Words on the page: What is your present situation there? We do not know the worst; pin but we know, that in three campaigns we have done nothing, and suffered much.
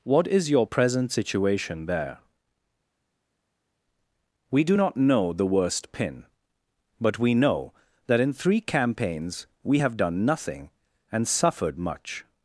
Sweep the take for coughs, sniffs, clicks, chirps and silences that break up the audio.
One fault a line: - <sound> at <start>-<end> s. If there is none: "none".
none